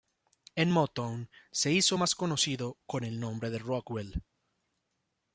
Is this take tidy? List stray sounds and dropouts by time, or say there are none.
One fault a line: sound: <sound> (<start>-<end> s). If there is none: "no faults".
no faults